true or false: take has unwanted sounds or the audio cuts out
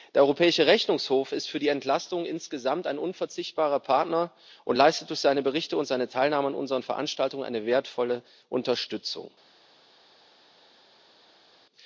false